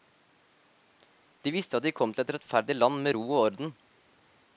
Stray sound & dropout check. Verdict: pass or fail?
pass